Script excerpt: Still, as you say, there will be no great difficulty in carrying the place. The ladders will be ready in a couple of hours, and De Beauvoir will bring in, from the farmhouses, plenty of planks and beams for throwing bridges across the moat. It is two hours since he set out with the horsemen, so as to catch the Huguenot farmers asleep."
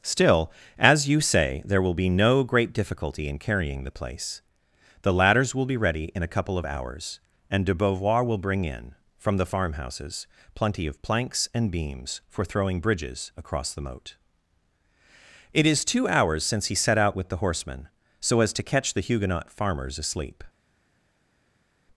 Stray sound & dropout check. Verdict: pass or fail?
pass